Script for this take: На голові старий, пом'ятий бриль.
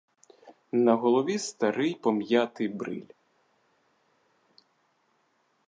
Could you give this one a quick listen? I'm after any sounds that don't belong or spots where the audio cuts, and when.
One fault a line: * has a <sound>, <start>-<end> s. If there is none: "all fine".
all fine